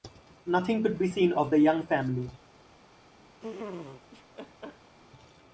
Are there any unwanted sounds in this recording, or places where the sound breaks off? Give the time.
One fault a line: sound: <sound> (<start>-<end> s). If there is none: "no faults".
sound: laugh (3.4-4.9 s)